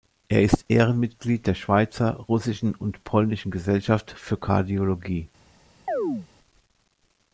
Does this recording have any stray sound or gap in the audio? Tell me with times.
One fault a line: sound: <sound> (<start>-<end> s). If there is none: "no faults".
sound: chirp (5.9-6.3 s)